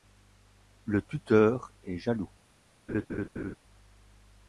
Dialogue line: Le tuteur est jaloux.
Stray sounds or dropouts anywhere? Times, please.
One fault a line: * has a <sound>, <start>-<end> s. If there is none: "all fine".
* has a laugh, 2.9-3.6 s